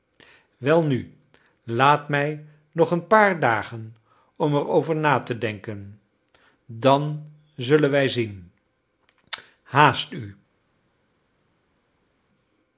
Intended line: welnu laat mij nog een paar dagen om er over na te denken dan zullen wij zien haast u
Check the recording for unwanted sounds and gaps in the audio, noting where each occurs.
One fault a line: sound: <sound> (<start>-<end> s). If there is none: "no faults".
no faults